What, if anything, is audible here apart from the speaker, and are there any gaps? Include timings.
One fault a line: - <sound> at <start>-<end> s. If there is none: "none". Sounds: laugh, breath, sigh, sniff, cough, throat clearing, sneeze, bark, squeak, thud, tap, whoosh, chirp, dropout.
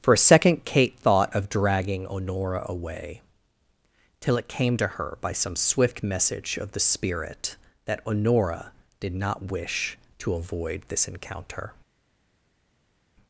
none